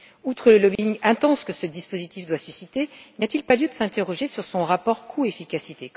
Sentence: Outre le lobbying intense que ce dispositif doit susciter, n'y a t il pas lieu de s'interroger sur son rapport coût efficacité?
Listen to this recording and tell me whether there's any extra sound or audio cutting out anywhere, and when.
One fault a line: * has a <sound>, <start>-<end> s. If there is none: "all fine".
* has a dropout, 0.8-0.8 s